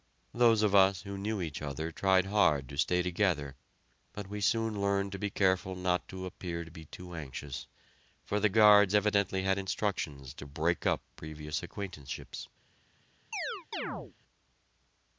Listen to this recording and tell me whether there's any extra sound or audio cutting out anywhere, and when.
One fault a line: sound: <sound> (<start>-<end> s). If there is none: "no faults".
sound: chirp (13.3-14.1 s)